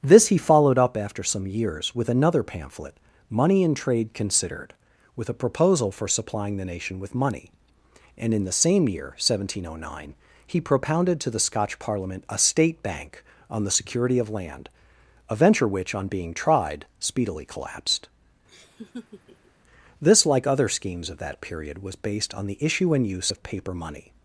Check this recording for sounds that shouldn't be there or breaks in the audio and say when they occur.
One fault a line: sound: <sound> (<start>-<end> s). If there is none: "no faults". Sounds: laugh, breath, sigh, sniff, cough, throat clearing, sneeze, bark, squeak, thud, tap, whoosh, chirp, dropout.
sound: laugh (18.5-19.5 s)